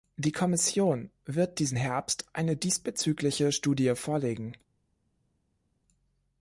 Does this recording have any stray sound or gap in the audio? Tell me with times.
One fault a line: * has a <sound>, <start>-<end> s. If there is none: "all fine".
all fine